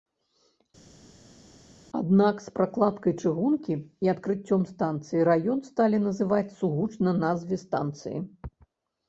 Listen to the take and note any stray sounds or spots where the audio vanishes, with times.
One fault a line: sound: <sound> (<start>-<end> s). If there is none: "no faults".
no faults